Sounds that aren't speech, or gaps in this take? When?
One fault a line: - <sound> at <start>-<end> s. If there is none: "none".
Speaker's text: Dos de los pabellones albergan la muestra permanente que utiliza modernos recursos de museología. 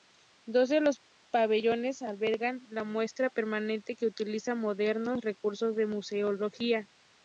none